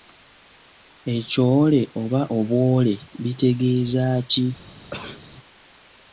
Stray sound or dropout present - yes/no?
yes